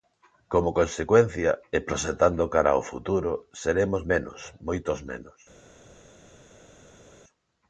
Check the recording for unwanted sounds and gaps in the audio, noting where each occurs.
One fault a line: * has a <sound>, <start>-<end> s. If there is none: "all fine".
all fine